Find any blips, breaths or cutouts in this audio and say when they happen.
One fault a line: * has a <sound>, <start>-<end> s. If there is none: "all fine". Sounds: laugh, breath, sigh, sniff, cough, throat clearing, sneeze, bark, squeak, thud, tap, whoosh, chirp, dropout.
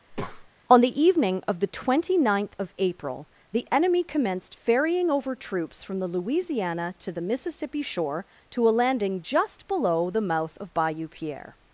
* has a breath, 0.1-0.5 s